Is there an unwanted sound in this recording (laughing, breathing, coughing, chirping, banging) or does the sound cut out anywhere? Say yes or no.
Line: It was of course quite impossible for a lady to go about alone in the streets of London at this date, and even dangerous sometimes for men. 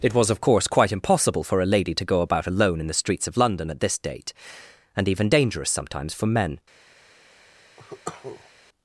yes